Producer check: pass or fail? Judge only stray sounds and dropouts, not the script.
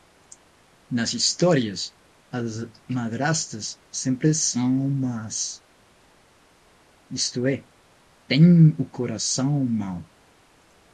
pass